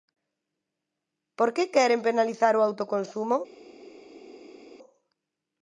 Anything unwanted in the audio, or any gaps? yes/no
no